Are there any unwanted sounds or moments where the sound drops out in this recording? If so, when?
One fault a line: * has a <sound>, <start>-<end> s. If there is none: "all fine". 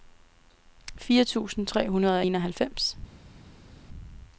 all fine